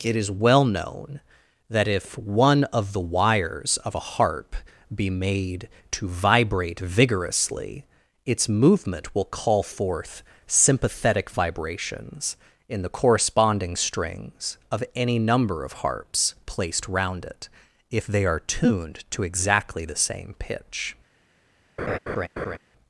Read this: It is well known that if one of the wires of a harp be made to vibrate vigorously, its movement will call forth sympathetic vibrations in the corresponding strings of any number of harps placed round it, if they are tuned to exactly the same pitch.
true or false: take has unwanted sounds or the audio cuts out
true